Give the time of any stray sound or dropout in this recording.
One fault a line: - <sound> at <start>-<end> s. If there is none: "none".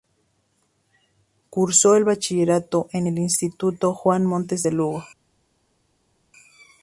none